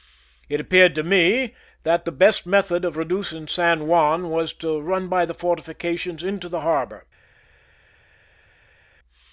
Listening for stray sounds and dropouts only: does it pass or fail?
pass